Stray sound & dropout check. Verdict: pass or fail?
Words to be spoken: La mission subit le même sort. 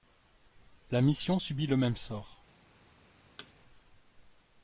fail